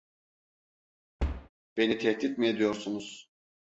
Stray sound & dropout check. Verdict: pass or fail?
fail